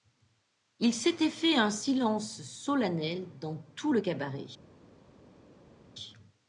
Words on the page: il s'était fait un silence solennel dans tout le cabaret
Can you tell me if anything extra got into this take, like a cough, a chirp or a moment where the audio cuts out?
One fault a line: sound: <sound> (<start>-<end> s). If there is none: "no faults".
no faults